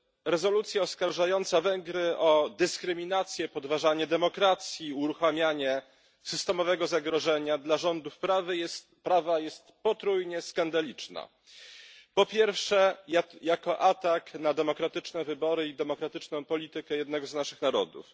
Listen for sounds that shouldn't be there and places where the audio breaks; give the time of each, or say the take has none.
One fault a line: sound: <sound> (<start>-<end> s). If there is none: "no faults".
no faults